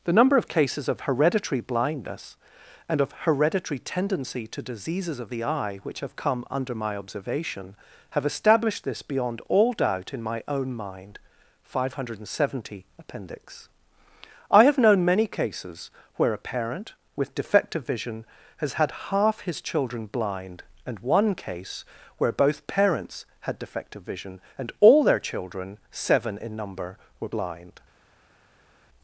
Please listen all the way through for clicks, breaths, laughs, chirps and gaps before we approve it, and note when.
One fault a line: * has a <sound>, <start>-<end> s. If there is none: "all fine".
all fine